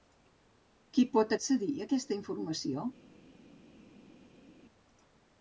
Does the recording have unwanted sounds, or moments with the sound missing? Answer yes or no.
no